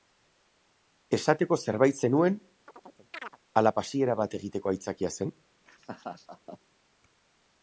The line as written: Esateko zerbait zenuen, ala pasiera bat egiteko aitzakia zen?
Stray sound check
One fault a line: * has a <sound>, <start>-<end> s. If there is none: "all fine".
* has a chirp, 2.7-3.4 s
* has a laugh, 5.7-6.6 s